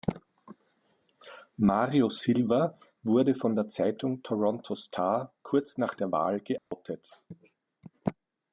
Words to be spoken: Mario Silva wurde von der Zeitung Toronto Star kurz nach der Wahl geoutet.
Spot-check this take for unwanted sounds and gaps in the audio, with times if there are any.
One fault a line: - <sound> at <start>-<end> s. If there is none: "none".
- dropout at 6.6-6.7 s